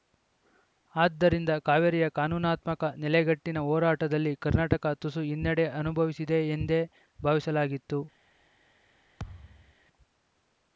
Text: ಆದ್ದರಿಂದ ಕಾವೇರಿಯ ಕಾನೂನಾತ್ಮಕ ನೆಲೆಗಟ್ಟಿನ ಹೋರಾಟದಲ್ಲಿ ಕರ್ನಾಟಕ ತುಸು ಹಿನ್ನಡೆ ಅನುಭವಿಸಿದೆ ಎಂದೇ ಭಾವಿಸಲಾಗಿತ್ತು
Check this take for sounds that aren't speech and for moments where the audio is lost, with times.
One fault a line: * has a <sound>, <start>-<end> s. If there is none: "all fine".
* has a thud, 9.2-9.7 s